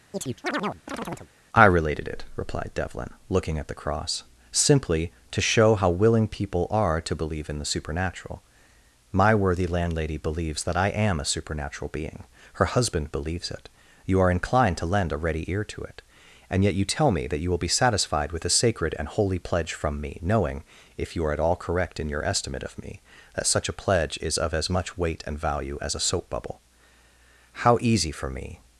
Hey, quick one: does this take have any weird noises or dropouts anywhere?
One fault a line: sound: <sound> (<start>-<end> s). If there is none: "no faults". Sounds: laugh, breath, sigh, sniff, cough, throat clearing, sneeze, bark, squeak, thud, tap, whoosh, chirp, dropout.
sound: chirp (0.1-1.3 s)